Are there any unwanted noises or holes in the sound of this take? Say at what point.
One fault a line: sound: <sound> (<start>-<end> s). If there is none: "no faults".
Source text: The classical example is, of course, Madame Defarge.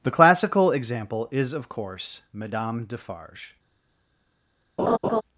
sound: laugh (4.8-5.2 s)